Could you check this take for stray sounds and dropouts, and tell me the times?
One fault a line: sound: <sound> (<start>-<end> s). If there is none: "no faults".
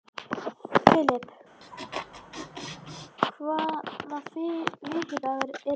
sound: laugh (1.6-3.1 s)